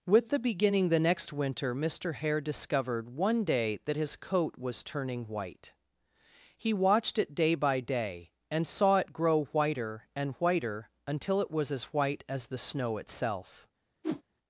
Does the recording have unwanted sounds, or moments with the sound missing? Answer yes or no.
yes